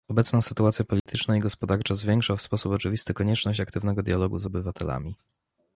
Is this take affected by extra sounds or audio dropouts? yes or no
yes